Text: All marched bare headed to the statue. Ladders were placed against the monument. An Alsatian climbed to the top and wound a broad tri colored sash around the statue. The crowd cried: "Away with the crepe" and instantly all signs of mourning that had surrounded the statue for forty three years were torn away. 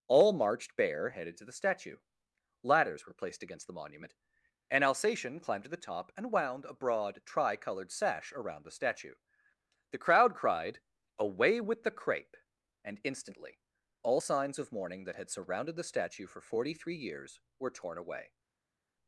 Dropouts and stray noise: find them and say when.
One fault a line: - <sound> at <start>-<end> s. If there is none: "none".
none